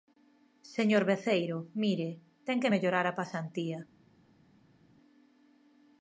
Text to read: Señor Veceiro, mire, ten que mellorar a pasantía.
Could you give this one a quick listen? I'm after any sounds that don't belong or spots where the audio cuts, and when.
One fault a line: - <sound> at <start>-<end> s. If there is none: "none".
none